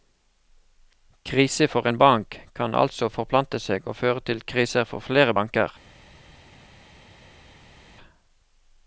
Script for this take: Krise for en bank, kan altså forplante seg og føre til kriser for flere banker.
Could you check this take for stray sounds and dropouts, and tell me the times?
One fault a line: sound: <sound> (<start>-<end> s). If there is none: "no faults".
no faults